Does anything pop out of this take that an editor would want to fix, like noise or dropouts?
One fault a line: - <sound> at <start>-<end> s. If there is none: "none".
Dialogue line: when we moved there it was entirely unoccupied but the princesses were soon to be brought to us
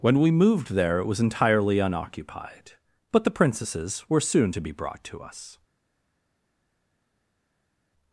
none